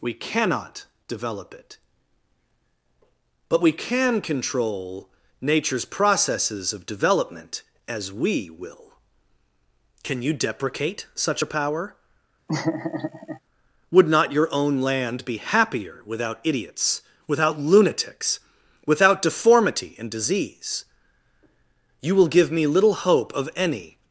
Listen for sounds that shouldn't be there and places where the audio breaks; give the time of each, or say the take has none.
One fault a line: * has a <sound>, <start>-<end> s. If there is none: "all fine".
* has a laugh, 12.5-13.4 s